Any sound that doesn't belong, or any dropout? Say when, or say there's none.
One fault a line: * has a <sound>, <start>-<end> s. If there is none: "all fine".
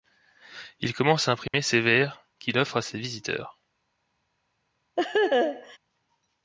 * has a dropout, 1.5-1.5 s
* has a laugh, 5.0-5.8 s